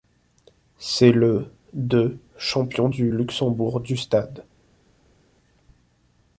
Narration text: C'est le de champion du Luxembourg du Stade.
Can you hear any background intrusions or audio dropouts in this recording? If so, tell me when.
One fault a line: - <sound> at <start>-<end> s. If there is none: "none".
none